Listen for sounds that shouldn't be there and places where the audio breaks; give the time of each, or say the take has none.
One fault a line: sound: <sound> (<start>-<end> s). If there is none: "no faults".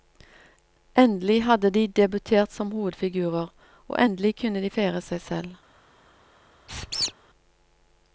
sound: squeak (6.7-7.1 s)